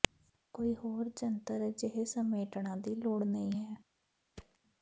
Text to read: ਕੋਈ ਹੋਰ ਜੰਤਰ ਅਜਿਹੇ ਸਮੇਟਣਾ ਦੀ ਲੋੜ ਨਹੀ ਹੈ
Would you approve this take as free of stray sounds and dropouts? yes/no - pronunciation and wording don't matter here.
no